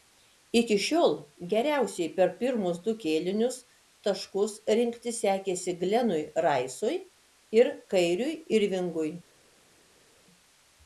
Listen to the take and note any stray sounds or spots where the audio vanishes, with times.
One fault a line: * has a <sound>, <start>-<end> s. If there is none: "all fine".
all fine